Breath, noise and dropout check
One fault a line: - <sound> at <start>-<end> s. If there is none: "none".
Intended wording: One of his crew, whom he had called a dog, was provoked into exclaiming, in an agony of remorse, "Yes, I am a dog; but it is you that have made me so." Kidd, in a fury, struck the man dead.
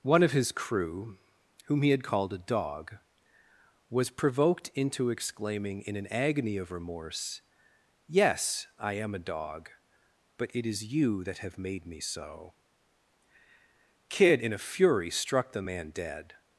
none